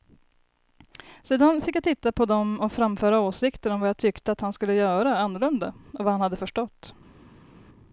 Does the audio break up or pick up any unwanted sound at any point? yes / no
no